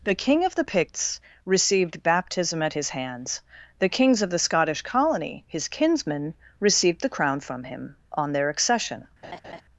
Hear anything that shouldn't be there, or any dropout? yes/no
yes